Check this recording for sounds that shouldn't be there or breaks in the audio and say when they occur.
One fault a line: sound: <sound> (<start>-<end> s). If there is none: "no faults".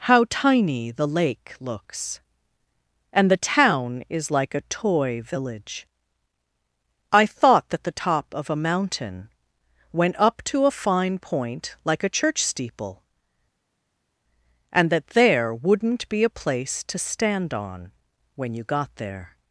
no faults